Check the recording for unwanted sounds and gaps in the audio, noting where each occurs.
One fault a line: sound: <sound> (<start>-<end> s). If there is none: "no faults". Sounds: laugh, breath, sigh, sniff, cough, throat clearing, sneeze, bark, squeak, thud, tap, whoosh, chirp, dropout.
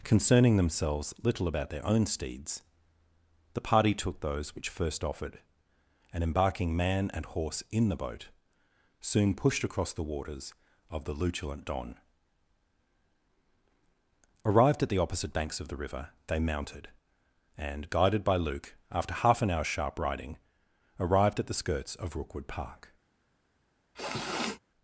sound: sniff (23.9-24.6 s)